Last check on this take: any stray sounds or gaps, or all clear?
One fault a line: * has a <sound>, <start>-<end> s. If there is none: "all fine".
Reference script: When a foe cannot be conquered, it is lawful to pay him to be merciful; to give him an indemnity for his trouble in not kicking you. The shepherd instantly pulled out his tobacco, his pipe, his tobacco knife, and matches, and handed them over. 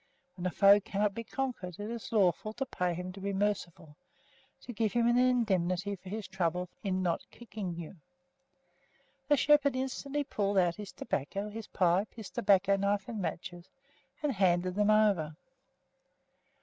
all fine